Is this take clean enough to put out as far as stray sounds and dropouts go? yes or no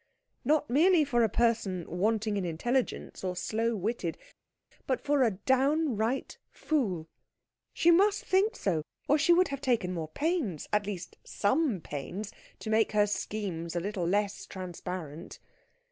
yes